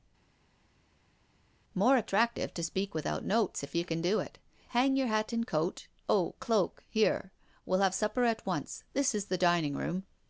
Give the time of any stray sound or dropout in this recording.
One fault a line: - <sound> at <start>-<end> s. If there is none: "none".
none